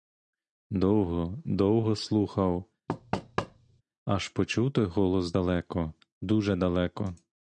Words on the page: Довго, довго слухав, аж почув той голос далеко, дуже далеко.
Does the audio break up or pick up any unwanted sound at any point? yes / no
yes